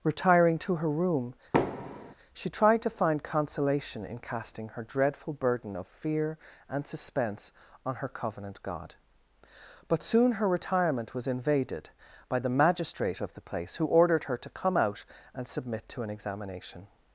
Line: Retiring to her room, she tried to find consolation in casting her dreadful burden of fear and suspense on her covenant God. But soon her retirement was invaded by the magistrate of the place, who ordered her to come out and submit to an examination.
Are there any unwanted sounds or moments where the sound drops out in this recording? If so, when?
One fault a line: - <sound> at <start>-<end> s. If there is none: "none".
- thud at 1.5-2.1 s